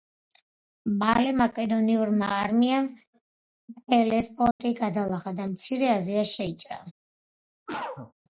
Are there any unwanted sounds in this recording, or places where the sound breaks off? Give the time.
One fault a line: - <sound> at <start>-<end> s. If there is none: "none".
- dropout at 4.5-4.6 s
- cough at 7.7-8.1 s